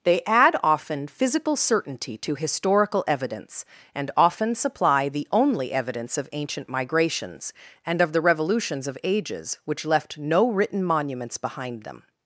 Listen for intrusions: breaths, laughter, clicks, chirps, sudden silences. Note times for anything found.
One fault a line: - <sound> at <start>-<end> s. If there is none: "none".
none